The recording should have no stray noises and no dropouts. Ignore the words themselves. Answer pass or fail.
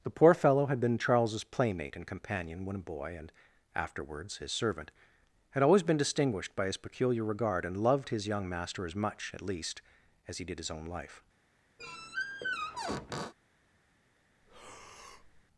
fail